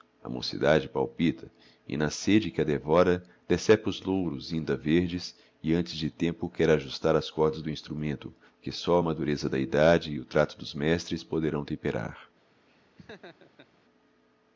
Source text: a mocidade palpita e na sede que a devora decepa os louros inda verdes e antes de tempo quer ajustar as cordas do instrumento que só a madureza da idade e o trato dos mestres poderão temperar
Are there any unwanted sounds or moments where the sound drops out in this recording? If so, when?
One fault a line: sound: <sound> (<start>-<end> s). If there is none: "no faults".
sound: laugh (12.7-13.7 s)